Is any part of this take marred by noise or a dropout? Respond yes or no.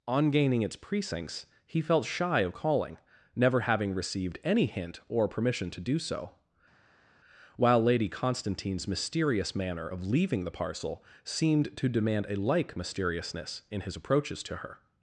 no